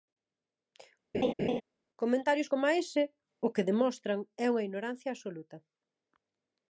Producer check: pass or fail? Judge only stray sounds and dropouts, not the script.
fail